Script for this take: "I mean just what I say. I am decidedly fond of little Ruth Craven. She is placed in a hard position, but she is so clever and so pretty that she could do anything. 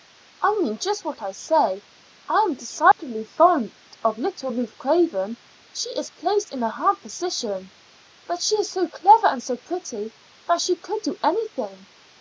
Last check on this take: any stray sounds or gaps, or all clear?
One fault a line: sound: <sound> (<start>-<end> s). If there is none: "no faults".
sound: dropout (2.9-3.0 s)